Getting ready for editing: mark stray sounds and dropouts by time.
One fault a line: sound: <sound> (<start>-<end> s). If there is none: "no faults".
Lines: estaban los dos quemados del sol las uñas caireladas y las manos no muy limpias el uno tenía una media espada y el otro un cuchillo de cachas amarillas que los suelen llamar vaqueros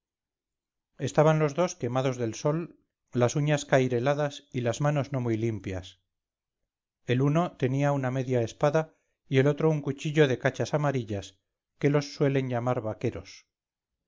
no faults